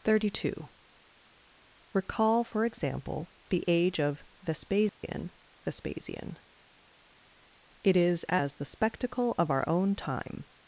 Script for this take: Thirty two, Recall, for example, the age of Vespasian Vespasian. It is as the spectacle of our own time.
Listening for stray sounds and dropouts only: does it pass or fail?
fail